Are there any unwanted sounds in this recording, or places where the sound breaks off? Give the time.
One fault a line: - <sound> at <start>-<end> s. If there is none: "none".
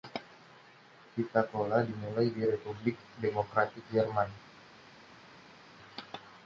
none